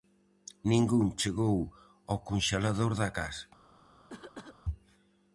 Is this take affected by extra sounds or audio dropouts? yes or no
yes